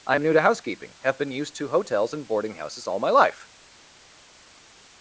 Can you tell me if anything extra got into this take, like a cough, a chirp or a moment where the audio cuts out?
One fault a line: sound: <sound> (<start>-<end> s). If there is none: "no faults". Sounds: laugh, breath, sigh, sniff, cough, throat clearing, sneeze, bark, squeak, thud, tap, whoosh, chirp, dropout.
no faults